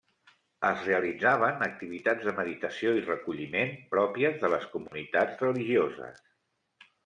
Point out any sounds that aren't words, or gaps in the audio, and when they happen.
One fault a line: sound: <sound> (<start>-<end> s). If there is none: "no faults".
sound: dropout (4.9-4.9 s)